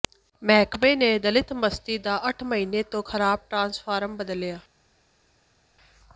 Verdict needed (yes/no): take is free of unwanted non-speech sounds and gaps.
yes